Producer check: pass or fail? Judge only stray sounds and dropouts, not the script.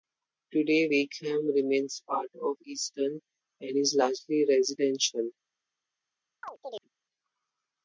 fail